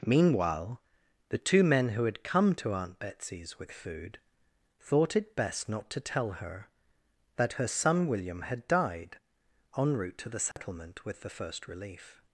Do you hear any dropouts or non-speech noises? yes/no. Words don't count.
yes